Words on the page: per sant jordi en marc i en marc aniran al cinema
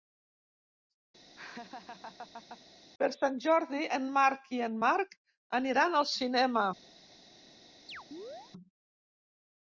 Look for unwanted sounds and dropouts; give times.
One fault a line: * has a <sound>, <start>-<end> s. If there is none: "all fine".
* has a laugh, 1.4-2.6 s
* has a chirp, 7.9-8.5 s